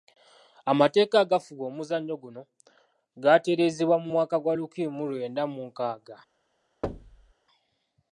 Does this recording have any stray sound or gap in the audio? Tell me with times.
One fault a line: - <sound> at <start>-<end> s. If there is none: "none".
- thud at 6.8-7.3 s